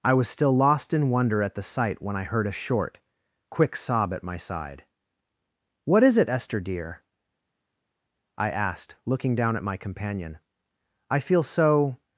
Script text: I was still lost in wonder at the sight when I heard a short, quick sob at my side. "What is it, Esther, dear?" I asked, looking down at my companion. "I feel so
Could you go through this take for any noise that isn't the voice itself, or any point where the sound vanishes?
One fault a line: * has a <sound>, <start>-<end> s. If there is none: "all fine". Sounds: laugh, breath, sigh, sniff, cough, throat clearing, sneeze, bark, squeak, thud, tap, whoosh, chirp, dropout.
all fine